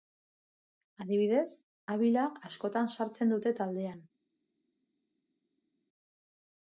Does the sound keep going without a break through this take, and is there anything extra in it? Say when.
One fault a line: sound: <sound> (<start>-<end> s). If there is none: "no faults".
no faults